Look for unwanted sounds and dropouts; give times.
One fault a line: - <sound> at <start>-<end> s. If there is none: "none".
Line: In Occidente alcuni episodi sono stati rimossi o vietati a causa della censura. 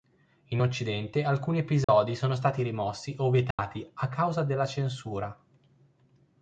- dropout at 1.8-1.9 s
- dropout at 3.5-3.6 s